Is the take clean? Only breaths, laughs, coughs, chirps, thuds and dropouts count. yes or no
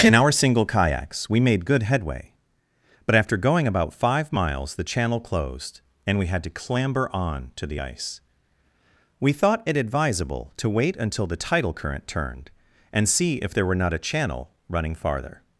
yes